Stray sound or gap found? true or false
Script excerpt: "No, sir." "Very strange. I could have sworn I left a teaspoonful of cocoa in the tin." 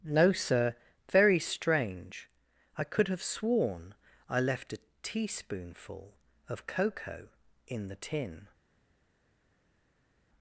false